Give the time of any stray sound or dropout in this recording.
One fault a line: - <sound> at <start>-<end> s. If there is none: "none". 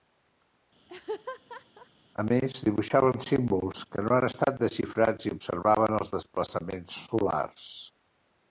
- laugh at 0.9-1.9 s